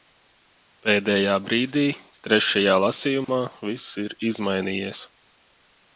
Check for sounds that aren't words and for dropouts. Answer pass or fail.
fail